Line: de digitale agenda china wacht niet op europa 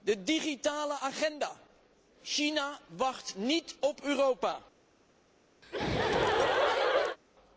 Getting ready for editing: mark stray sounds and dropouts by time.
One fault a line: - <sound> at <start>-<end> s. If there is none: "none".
- laugh at 5.6-7.2 s